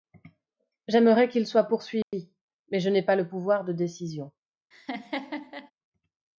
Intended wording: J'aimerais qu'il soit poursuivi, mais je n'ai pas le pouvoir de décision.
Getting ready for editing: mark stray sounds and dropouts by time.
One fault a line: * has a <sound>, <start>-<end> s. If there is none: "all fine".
* has a dropout, 2.0-2.1 s
* has a laugh, 4.7-5.7 s